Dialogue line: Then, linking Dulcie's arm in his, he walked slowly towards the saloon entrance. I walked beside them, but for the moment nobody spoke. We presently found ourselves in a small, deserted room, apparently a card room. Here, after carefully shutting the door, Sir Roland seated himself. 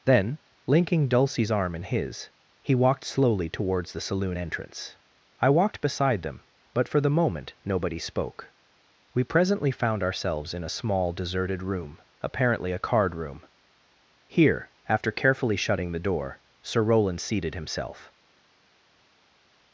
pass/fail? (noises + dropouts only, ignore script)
pass